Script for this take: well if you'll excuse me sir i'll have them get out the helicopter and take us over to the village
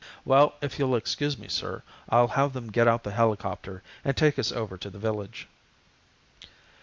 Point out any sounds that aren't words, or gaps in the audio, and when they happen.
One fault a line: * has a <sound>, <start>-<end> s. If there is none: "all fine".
all fine